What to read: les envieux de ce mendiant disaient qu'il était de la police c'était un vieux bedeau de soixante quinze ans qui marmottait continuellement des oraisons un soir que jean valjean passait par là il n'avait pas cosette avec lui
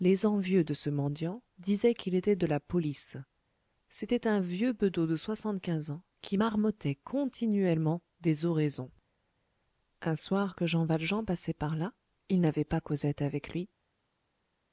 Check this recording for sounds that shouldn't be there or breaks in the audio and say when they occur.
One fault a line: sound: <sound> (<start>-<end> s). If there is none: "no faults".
no faults